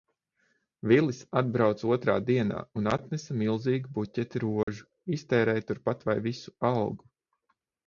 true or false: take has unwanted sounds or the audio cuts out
true